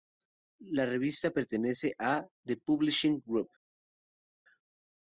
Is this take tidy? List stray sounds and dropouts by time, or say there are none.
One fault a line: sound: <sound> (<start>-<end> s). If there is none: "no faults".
no faults